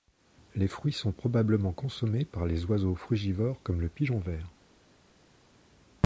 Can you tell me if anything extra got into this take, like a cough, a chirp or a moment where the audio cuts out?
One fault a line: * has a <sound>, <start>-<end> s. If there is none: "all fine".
all fine